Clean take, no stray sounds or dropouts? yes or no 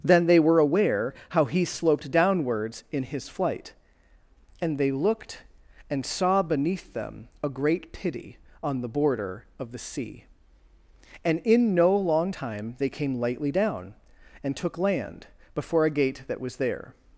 yes